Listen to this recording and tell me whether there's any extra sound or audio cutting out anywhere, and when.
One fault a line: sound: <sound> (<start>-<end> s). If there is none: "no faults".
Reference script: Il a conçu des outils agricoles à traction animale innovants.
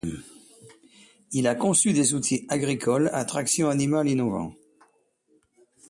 no faults